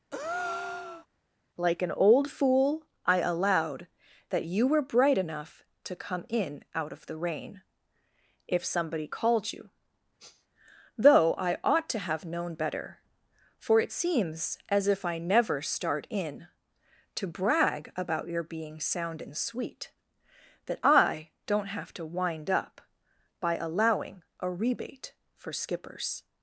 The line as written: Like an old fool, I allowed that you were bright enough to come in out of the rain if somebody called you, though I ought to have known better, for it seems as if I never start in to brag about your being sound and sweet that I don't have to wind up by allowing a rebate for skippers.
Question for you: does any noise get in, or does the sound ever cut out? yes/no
yes